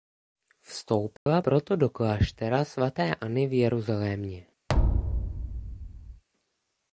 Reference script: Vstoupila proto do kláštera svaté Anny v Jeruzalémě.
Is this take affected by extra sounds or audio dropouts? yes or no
yes